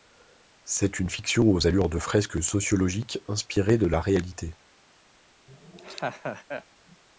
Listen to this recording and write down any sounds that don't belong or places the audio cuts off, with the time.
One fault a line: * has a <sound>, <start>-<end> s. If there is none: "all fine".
* has a laugh, 5.5-6.6 s